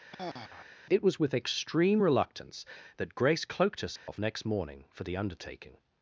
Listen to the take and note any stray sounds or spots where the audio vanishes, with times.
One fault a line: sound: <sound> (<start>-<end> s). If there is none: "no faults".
sound: sigh (0.1-0.7 s)
sound: dropout (4.0-4.1 s)